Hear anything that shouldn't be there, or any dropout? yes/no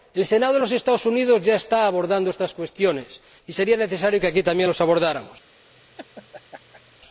yes